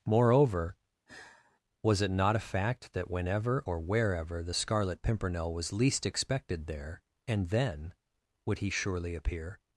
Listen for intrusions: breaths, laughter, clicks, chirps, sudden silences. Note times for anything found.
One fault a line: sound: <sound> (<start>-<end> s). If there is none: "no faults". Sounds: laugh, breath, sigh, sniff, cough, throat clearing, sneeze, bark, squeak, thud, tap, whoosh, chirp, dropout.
sound: sigh (1.1-1.6 s)